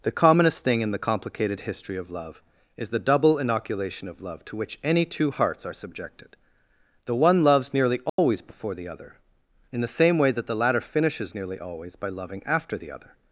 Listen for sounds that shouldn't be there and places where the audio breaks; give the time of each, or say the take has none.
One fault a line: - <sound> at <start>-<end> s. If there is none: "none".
- dropout at 8.1-8.2 s